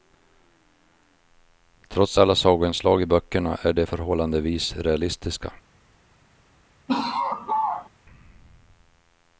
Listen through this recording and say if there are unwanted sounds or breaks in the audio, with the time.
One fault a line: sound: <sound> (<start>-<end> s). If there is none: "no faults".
sound: laugh (6.9-7.9 s)